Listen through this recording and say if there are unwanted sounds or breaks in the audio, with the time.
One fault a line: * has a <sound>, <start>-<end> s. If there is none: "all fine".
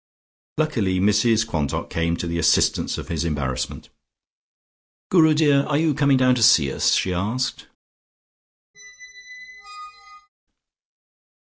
* has a squeak, 8.7-10.3 s